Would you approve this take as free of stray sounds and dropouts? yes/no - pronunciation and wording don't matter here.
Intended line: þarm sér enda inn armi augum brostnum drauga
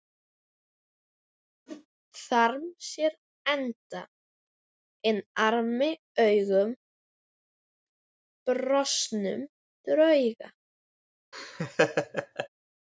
no